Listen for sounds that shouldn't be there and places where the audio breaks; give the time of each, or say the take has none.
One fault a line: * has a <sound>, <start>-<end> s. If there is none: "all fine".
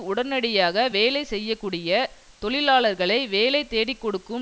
all fine